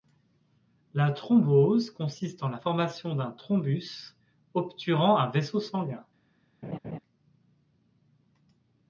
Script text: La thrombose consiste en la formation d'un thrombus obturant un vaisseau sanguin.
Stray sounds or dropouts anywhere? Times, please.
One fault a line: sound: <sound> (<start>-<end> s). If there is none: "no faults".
sound: laugh (6.6-7.0 s)